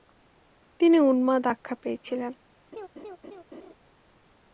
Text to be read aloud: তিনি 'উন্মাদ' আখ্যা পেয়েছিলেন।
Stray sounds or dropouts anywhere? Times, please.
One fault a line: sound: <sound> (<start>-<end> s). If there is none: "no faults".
sound: laugh (2.7-3.7 s)